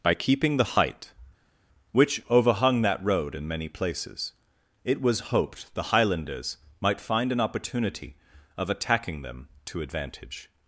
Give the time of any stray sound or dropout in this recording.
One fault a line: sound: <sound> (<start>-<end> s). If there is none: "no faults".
no faults